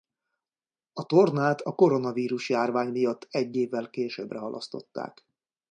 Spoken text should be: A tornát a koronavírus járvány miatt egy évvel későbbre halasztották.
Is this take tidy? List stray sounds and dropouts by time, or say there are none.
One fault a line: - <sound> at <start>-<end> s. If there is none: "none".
none